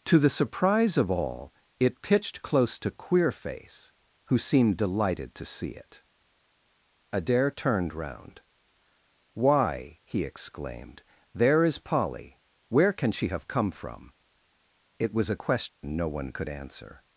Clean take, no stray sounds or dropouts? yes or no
no